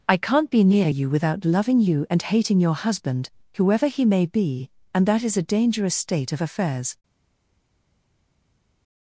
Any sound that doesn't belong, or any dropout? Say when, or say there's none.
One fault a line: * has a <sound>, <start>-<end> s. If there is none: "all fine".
all fine